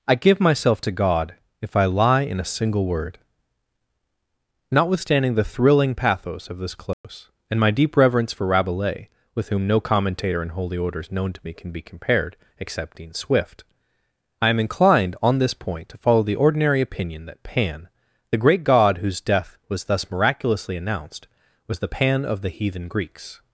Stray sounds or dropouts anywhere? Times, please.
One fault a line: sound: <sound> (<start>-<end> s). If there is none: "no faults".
sound: dropout (6.9-7.0 s)